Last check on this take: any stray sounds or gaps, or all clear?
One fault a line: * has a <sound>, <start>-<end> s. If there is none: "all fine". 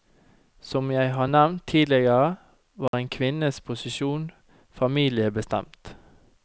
* has a dropout, 2.9-2.9 s